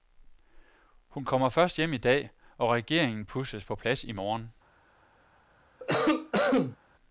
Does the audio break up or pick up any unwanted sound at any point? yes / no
yes